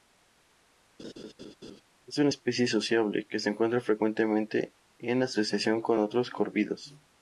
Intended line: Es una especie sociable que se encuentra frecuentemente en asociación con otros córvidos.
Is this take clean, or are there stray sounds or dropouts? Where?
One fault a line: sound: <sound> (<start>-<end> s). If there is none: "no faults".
sound: laugh (1.0-1.8 s)